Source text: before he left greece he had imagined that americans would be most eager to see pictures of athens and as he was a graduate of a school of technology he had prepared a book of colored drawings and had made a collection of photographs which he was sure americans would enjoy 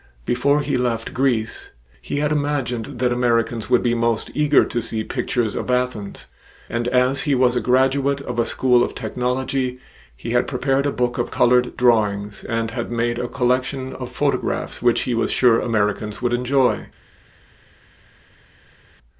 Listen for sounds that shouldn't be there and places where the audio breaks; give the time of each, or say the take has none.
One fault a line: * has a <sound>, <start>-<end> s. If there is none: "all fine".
all fine